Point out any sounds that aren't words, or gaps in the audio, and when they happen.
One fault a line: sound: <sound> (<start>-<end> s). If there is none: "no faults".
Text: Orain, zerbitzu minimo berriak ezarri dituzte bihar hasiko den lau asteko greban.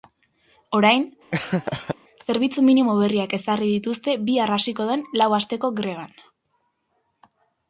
sound: laugh (1.3-2.0 s)